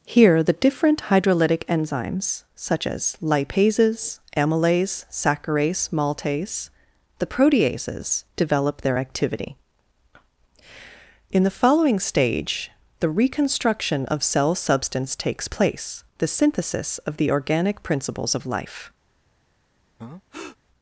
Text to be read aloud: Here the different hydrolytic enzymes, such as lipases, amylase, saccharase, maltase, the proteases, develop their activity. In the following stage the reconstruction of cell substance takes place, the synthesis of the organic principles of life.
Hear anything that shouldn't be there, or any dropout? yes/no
yes